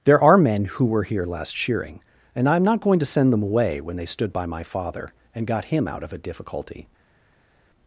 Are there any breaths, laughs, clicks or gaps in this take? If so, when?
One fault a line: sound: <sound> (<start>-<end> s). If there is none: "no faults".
no faults